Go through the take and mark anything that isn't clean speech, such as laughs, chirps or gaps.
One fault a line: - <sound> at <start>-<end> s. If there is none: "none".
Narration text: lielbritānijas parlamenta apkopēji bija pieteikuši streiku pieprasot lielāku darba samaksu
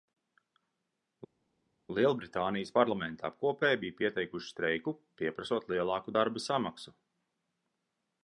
none